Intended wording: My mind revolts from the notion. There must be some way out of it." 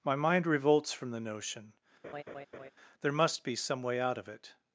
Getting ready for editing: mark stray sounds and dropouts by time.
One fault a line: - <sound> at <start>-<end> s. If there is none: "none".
- laugh at 2.0-2.7 s